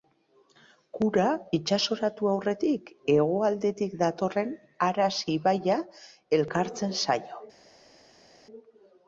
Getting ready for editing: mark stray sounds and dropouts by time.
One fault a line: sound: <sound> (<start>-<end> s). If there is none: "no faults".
no faults